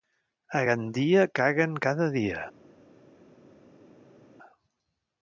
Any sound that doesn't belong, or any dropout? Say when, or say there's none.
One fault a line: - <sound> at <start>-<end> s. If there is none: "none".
none